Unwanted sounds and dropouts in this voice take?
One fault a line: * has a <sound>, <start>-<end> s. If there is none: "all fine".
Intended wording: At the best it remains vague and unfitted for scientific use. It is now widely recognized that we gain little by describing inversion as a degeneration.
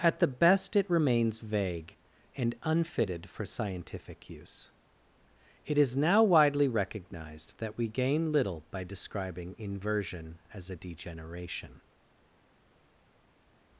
all fine